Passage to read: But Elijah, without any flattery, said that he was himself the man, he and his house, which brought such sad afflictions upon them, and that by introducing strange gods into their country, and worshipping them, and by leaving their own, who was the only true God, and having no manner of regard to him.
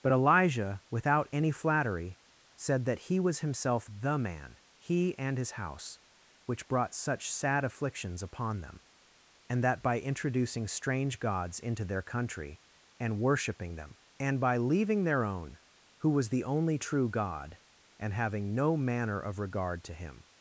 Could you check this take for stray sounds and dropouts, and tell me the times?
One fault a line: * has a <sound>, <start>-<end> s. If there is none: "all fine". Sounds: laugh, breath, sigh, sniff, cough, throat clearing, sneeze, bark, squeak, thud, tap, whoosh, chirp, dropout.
all fine